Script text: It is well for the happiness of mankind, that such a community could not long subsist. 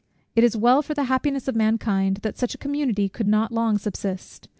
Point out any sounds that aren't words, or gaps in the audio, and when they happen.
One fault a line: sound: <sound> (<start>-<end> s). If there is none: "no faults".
no faults